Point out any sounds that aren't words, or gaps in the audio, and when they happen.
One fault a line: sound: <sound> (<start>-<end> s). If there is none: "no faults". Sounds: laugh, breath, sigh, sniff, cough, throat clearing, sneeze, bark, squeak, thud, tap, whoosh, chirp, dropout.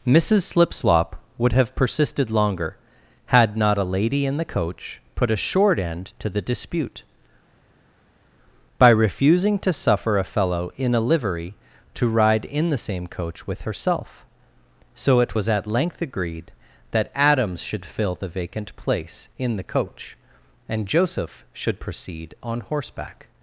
no faults